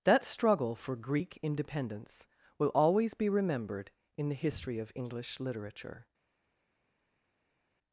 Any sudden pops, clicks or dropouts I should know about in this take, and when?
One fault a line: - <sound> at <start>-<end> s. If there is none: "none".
none